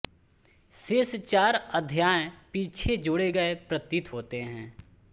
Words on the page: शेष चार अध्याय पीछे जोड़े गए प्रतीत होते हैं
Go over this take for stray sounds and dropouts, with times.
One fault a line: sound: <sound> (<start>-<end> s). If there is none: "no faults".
no faults